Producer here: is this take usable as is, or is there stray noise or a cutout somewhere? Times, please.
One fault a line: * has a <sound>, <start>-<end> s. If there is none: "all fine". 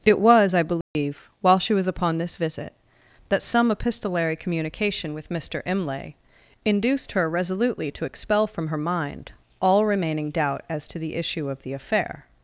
* has a dropout, 0.8-1.0 s